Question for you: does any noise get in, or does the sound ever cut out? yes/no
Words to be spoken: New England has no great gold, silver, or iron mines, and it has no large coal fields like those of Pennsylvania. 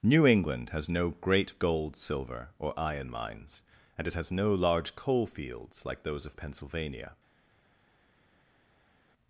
no